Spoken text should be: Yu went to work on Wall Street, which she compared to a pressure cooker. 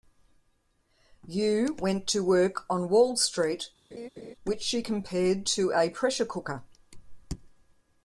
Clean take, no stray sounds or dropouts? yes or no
no